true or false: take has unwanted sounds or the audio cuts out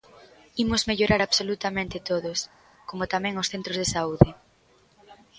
false